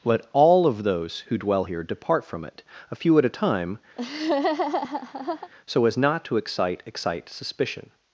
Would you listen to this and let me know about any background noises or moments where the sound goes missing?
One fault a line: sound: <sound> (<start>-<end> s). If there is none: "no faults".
sound: laugh (4.0-5.5 s)